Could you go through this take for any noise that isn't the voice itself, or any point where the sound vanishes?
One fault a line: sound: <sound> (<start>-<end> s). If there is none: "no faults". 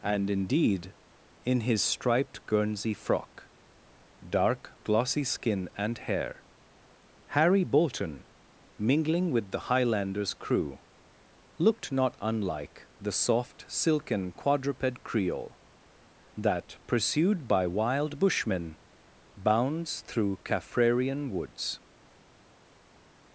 no faults